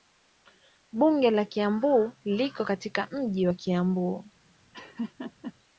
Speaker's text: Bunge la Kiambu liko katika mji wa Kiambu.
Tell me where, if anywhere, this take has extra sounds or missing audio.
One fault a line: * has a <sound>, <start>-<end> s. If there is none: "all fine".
* has a laugh, 4.7-5.5 s